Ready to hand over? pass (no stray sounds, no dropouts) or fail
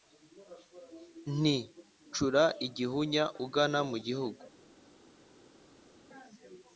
pass